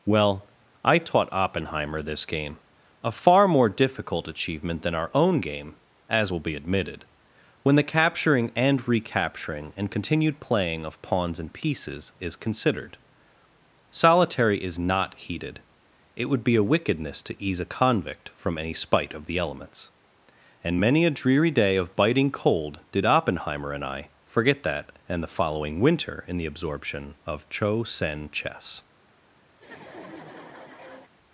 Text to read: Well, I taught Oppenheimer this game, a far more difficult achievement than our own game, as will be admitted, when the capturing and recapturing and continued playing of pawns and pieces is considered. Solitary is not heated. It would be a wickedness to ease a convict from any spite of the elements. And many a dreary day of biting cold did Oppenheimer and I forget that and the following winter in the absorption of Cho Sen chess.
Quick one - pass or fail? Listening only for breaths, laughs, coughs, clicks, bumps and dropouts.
fail